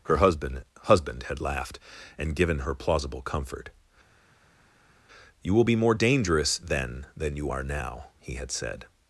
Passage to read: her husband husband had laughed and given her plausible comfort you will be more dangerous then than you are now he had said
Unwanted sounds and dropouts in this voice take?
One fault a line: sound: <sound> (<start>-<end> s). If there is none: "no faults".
no faults